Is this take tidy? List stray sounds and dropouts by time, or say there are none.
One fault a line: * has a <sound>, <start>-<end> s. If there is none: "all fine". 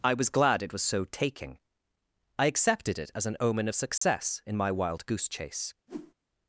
* has a dropout, 4.0-4.0 s
* has a whoosh, 5.9-6.1 s